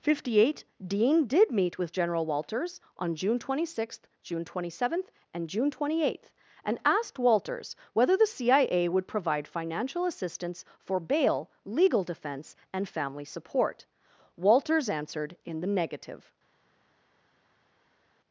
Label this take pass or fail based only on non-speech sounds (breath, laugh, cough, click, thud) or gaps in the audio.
pass